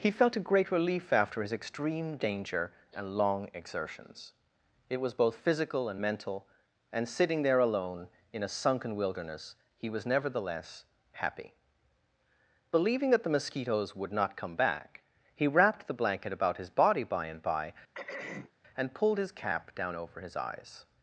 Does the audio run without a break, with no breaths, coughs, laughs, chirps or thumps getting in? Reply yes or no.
no